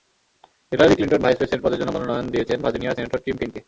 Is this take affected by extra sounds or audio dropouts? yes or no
no